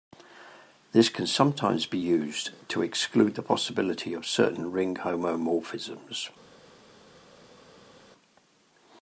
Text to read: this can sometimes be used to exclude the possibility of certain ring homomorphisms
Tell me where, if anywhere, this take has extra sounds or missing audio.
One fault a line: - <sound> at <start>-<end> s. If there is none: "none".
none